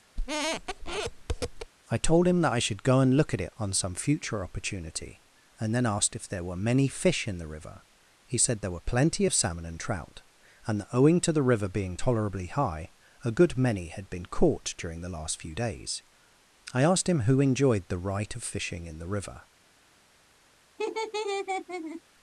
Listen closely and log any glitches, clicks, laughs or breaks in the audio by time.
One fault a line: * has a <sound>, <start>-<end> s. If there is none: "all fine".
* has a squeak, 0.2-1.7 s
* has a laugh, 20.8-22.0 s